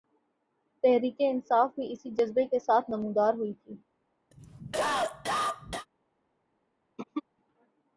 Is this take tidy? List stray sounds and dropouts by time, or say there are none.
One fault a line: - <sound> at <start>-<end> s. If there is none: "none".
- cough at 4.3-5.9 s
- throat clearing at 7.0-7.2 s